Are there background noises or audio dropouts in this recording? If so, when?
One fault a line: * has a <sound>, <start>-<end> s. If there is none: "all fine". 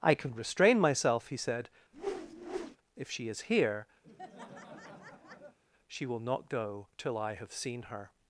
* has a whoosh, 1.9-2.8 s
* has a laugh, 4.0-5.6 s